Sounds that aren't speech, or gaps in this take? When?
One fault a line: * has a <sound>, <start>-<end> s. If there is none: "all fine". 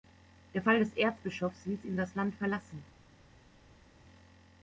all fine